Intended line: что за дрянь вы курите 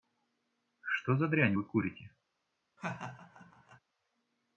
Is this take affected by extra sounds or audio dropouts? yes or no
yes